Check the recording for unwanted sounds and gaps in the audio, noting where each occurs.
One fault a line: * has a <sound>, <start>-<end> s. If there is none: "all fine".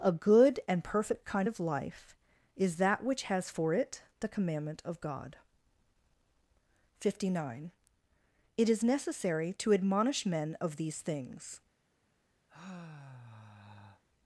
* has a sigh, 12.5-14.0 s